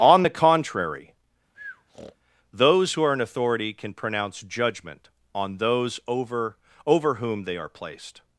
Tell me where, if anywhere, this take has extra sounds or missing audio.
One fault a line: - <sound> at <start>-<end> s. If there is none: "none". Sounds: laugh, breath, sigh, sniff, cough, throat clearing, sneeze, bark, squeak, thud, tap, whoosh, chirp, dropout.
- breath at 1.5-2.2 s